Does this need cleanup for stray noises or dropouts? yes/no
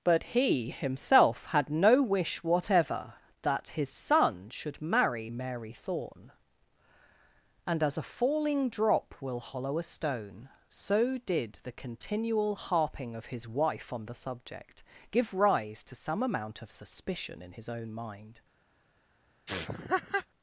yes